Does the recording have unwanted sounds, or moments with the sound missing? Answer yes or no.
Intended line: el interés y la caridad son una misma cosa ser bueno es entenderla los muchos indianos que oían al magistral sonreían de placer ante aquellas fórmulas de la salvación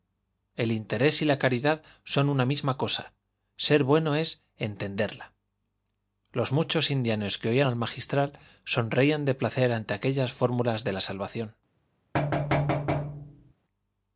yes